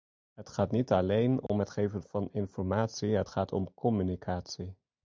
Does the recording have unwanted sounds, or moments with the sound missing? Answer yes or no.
yes